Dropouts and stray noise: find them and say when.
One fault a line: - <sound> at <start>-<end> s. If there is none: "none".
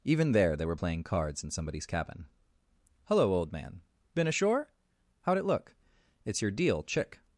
none